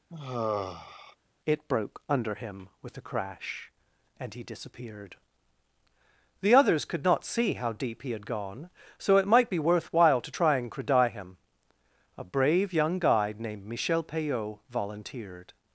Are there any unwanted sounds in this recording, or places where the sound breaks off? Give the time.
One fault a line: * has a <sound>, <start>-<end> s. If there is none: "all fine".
* has a sigh, 0.1-1.2 s